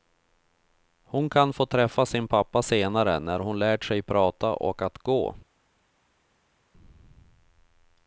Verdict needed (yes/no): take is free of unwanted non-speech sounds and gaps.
yes